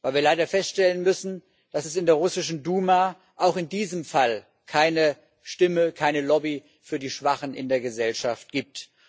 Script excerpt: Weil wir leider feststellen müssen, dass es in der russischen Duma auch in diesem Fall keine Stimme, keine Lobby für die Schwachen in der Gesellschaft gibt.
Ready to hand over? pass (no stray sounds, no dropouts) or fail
pass